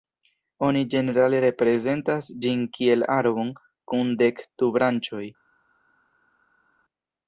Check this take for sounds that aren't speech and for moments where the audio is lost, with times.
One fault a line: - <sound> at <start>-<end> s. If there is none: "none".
none